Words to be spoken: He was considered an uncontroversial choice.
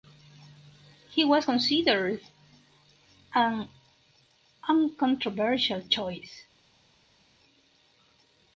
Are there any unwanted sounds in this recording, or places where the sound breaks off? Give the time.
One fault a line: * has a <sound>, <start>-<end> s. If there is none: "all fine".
all fine